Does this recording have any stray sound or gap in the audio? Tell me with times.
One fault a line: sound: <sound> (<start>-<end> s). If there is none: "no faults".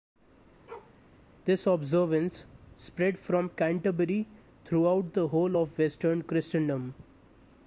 sound: bark (0.7-1.0 s)